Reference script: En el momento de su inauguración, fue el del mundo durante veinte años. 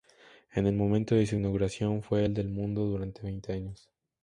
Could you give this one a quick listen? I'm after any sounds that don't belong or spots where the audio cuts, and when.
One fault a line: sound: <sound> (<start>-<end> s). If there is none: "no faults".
no faults